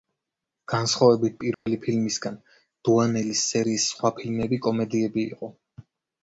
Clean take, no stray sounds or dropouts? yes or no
no